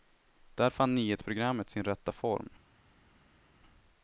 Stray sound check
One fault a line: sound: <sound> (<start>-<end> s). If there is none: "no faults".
no faults